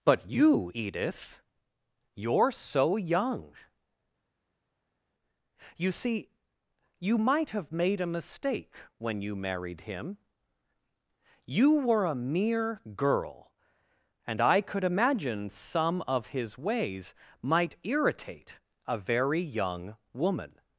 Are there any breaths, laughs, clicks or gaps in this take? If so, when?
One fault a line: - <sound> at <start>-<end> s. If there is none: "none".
none